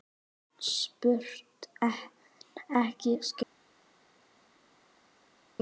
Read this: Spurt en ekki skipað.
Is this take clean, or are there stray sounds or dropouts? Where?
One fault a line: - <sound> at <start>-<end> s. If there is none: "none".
none